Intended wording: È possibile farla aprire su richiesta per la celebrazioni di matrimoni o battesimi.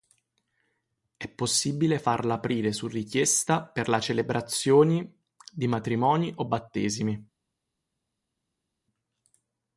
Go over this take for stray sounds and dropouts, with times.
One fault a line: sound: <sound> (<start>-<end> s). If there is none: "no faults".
no faults